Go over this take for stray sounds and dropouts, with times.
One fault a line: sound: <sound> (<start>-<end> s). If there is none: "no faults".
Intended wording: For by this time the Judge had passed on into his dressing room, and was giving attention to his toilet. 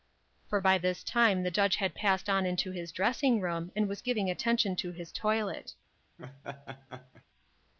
sound: laugh (6.2-7.2 s)